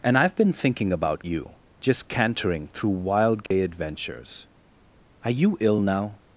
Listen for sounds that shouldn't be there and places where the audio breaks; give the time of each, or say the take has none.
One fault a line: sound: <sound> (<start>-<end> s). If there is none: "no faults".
sound: dropout (3.5-3.5 s)